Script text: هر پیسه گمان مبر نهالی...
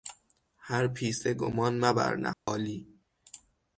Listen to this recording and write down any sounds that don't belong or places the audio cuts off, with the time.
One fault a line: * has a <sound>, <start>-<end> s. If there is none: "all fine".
* has a dropout, 2.3-2.5 s